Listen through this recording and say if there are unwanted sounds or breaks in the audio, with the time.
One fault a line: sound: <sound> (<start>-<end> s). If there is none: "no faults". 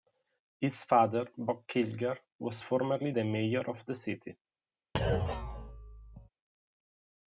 sound: thud (4.9-6.3 s)